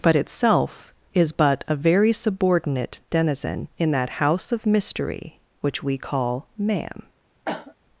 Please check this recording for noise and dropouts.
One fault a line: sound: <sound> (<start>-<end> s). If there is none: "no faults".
sound: cough (7.5-7.8 s)